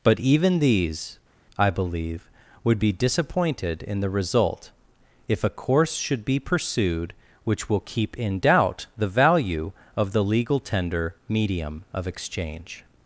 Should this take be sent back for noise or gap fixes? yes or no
no